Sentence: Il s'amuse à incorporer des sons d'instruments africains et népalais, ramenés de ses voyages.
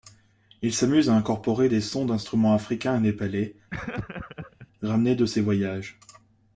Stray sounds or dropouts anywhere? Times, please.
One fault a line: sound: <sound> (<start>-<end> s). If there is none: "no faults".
sound: laugh (3.7-4.7 s)